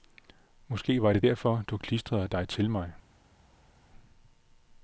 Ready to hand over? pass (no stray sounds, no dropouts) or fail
pass